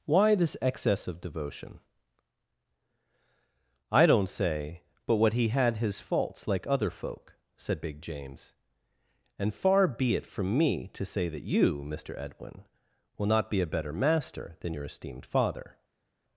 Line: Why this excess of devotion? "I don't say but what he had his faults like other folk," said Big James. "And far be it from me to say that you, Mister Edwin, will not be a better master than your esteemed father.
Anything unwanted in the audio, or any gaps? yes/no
no